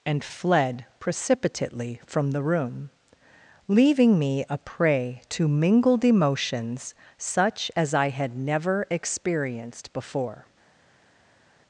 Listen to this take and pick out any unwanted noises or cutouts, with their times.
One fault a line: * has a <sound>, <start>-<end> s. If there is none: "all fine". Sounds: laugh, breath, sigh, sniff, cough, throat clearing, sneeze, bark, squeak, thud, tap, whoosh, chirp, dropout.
all fine